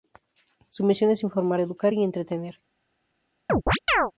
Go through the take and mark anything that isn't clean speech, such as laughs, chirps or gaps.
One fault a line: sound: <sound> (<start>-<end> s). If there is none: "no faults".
sound: chirp (3.5-4.1 s)